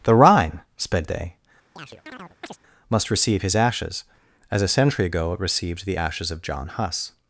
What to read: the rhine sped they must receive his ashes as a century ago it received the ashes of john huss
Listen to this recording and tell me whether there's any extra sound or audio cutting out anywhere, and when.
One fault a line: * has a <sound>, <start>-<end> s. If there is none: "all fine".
* has a chirp, 1.8-2.6 s